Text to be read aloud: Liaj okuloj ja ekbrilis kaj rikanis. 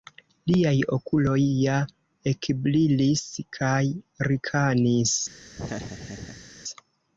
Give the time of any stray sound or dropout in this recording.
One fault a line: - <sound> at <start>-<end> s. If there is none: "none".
- laugh at 5.6-6.5 s